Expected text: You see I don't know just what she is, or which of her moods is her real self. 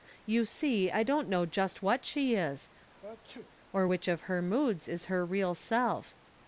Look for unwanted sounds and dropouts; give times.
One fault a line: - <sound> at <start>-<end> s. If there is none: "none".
- sneeze at 3.0-3.5 s